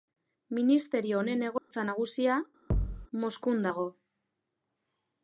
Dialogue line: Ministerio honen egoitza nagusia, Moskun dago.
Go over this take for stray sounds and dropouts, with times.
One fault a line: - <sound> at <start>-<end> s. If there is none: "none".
- dropout at 1.6-1.7 s
- thud at 2.7-3.1 s